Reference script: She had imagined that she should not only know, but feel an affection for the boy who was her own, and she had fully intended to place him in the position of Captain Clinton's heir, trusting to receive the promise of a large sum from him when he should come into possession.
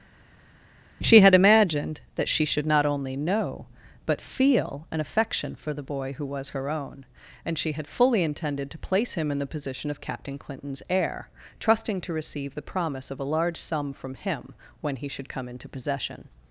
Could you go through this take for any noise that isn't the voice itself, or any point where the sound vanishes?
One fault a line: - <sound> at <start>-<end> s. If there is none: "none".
none